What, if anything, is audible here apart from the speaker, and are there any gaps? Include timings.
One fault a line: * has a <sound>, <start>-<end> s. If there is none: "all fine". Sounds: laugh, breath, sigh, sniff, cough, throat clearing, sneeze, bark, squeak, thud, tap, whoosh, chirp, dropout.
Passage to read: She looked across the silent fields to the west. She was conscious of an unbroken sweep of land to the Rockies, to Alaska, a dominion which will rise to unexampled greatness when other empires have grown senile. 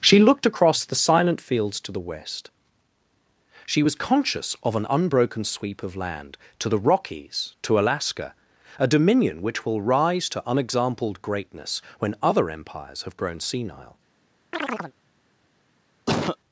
* has a chirp, 14.5-14.9 s
* has a cough, 16.1-16.4 s